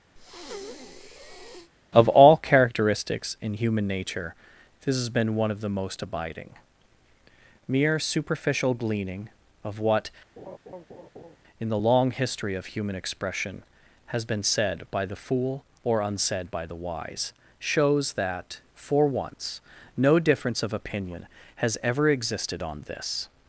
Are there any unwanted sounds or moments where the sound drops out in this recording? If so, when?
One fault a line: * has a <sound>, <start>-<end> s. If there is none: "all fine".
* has a breath, 0.2-1.7 s
* has a laugh, 10.4-11.4 s